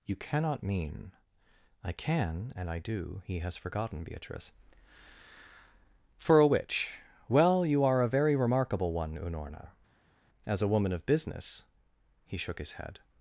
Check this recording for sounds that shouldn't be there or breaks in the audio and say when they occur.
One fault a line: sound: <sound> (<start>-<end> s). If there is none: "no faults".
no faults